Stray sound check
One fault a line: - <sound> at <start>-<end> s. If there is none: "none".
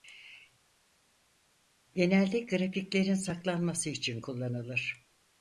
none